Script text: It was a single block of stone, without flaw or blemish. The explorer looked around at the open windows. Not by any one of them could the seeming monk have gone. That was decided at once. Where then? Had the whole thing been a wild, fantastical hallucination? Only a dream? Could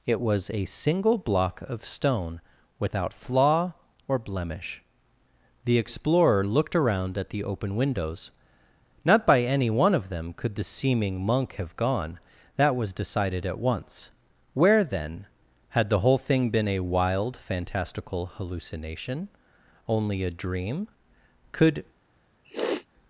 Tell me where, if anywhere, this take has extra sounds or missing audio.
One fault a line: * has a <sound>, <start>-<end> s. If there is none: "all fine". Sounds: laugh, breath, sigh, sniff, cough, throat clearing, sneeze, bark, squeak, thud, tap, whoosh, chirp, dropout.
* has a sniff, 22.4-22.9 s